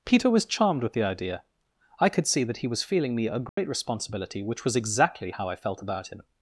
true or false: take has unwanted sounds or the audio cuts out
true